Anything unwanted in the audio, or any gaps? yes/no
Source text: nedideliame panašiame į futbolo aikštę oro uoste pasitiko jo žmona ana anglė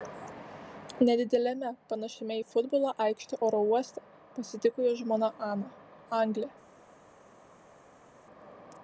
no